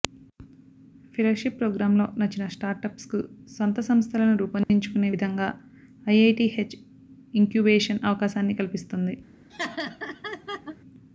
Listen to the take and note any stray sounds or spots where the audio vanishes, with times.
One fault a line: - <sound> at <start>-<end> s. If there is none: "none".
- dropout at 4.6-4.7 s
- laugh at 9.5-10.8 s